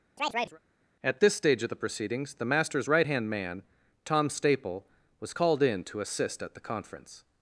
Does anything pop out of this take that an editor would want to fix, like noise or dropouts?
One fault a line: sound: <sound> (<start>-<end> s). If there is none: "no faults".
sound: chirp (0.2-0.6 s)